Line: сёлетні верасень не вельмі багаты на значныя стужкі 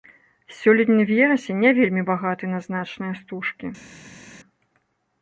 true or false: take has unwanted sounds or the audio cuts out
false